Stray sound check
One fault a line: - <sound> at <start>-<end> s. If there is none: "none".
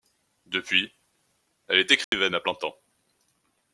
- dropout at 2.0-2.1 s